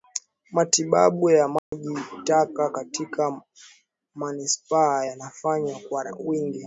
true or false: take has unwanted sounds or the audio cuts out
true